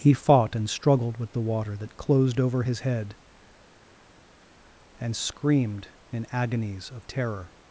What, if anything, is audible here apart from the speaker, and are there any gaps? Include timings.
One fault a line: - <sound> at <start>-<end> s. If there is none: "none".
none